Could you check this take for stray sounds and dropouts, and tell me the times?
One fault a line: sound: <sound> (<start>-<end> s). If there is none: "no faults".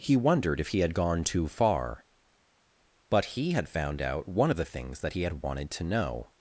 no faults